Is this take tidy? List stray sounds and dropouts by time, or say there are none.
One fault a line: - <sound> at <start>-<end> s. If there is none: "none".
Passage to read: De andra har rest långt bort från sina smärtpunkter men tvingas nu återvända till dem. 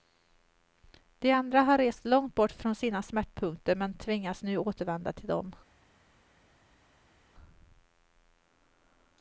none